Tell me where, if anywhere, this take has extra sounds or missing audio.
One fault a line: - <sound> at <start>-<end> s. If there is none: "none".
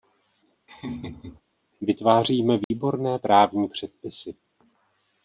- laugh at 0.7-1.4 s
- dropout at 2.6-2.7 s